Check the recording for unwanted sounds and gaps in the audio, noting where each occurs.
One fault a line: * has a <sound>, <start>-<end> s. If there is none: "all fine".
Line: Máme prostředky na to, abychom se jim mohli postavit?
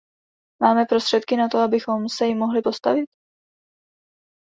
all fine